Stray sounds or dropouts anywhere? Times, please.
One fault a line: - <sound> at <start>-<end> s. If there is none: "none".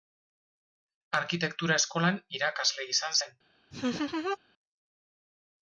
- laugh at 3.7-4.4 s